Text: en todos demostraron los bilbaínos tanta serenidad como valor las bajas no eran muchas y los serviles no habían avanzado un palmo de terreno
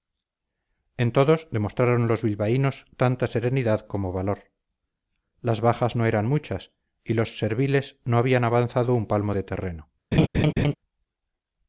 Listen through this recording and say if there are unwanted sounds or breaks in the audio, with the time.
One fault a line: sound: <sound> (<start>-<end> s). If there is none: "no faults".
sound: laugh (10.1-10.7 s)